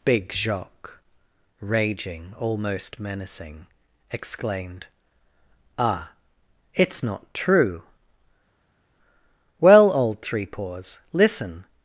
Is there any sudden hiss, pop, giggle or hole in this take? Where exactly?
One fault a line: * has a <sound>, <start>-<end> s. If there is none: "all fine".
all fine